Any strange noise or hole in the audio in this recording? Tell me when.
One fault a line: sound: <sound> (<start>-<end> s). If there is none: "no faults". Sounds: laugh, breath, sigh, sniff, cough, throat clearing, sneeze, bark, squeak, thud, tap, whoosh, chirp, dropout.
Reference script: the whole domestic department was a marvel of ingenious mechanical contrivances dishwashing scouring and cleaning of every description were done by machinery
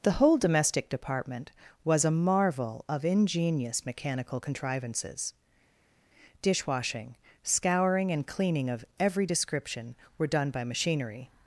no faults